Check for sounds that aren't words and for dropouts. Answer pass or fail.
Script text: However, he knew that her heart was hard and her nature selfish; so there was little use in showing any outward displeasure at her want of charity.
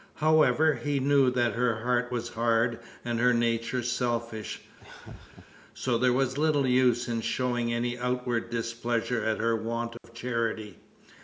fail